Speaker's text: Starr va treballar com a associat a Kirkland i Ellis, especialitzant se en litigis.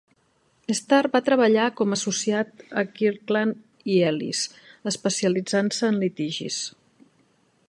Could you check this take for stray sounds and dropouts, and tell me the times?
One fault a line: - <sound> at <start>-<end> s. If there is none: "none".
none